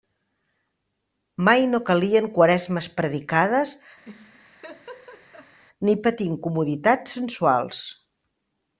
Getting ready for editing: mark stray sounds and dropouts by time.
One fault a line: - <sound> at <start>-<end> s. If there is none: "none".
- laugh at 4.0-5.6 s